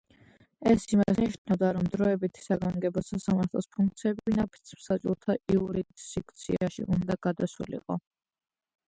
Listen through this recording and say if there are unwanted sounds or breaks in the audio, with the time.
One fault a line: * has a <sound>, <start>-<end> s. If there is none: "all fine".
all fine